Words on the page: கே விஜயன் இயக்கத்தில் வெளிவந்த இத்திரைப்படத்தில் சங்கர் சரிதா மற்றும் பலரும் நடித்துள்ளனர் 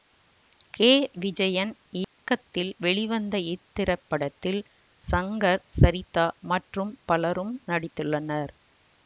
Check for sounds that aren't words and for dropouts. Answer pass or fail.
fail